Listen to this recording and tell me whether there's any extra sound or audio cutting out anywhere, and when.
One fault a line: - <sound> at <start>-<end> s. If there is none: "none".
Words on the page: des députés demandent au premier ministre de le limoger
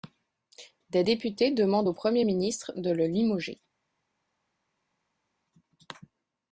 none